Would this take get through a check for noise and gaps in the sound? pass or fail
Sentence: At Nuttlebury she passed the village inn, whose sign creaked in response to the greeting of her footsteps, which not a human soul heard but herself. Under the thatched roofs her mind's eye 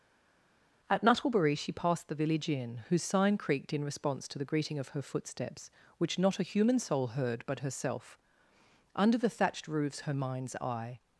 pass